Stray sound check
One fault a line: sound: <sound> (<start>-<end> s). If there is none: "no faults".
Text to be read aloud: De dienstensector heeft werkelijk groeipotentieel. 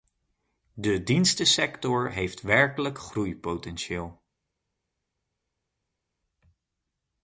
no faults